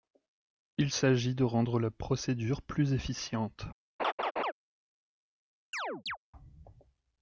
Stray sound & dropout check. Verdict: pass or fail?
fail